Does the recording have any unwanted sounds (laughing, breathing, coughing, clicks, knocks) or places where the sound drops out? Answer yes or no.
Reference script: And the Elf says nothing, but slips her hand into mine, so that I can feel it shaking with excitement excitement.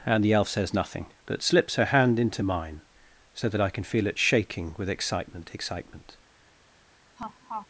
yes